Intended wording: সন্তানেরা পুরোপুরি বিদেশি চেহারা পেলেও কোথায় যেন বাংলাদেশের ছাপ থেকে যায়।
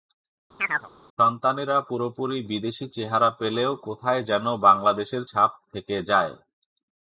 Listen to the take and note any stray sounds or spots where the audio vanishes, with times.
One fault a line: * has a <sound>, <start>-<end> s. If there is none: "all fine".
* has a chirp, 0.6-0.9 s